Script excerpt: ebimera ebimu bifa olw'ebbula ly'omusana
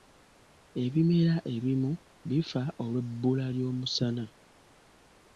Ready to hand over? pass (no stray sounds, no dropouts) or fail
pass